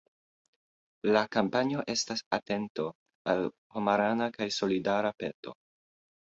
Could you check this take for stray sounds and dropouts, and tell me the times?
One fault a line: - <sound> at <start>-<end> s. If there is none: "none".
none